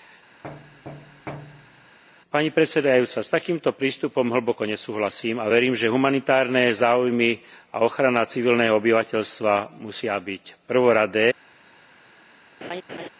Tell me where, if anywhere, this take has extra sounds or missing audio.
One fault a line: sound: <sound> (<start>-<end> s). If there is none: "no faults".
sound: thud (0.4-2.0 s)
sound: laugh (12.6-13.1 s)